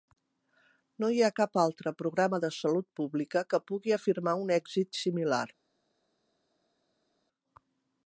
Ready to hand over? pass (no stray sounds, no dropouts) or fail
pass